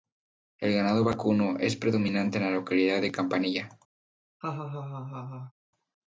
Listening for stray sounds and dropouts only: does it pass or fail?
fail